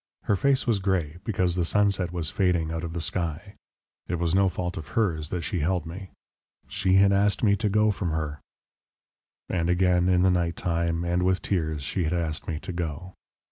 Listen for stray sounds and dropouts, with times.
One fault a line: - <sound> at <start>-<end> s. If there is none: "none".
none